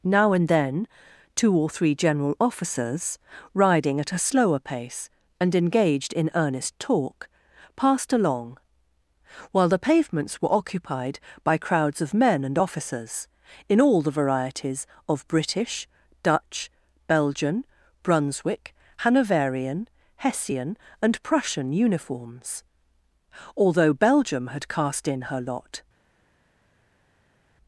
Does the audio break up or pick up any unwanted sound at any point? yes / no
no